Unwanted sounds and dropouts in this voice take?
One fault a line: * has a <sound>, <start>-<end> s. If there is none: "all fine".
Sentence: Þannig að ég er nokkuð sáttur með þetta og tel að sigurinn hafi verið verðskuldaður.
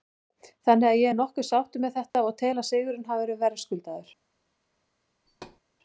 * has a dropout, 2.1-2.1 s
* has a thud, 5.3-5.6 s